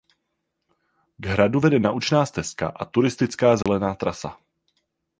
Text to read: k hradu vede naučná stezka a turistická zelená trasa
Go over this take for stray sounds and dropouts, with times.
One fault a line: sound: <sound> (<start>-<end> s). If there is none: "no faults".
sound: dropout (3.6-3.7 s)